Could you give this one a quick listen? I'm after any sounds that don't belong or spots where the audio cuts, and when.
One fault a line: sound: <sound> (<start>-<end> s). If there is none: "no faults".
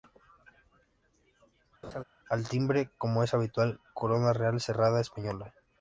sound: laugh (1.8-2.0 s)